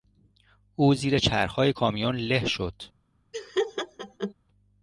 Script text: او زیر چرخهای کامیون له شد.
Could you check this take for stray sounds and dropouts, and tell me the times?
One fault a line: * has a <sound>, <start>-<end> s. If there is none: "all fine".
* has a laugh, 3.3-4.3 s